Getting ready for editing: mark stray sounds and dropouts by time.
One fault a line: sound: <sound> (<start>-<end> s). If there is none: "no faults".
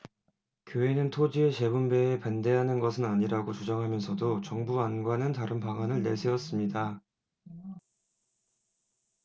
no faults